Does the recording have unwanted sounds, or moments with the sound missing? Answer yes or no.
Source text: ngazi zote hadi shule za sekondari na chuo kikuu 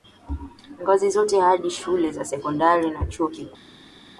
no